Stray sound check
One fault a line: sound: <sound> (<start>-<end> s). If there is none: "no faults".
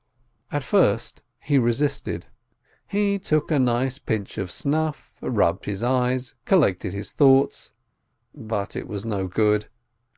no faults